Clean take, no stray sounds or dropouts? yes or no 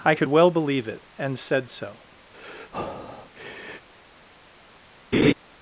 no